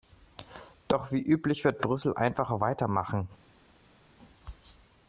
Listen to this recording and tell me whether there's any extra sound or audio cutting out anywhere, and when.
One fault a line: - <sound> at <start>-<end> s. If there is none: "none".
none